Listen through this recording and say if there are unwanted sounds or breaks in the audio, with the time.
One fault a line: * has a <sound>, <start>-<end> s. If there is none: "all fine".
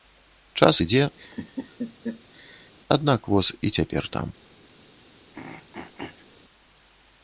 * has a laugh, 1.2-2.7 s
* has a throat clearing, 5.3-6.3 s